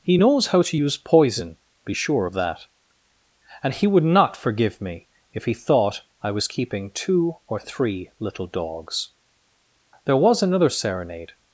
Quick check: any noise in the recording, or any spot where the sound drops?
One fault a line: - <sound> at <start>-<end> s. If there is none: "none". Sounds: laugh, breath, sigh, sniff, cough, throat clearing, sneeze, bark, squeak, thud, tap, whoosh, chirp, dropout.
none